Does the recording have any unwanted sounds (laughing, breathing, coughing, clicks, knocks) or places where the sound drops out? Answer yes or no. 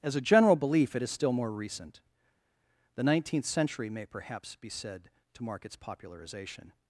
no